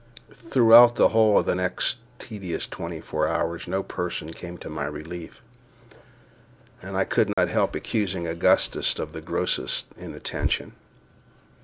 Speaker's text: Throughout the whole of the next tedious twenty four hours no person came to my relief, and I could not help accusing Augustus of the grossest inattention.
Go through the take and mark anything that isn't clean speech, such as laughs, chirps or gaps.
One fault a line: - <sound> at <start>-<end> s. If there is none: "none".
- dropout at 7.3-7.4 s